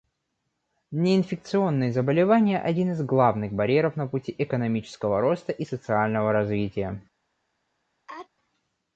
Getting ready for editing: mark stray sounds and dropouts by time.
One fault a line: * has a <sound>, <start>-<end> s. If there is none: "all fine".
* has a sneeze, 8.1-8.3 s